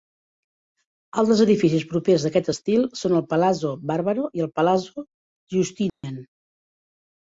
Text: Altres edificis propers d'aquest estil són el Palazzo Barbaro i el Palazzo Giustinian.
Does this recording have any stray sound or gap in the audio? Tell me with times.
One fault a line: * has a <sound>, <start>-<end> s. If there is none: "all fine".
* has a dropout, 5.9-6.0 s